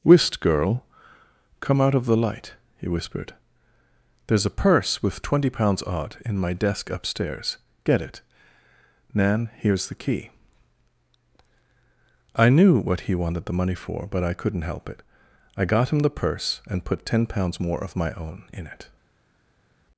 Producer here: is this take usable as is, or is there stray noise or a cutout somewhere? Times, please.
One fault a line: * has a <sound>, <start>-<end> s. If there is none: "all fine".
all fine